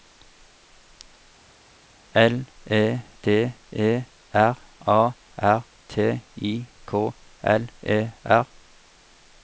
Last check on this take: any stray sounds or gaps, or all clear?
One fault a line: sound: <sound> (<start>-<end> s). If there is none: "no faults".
no faults